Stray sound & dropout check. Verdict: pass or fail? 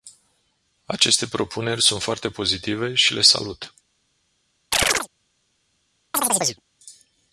fail